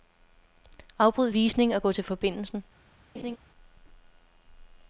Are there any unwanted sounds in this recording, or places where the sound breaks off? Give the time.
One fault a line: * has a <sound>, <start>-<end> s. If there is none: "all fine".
* has a laugh, 3.1-3.4 s